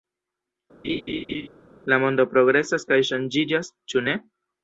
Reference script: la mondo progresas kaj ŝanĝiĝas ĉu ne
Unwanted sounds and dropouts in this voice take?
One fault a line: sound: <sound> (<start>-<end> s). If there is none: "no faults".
sound: laugh (0.8-1.5 s)